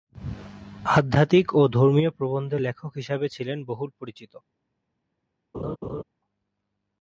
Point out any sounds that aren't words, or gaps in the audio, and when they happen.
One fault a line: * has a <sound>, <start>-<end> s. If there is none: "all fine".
* has a laugh, 5.5-6.0 s